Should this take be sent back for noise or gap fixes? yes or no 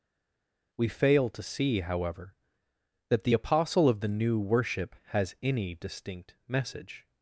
no